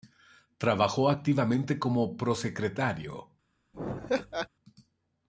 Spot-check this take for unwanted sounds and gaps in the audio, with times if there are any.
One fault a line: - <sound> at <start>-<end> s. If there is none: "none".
- laugh at 3.7-4.5 s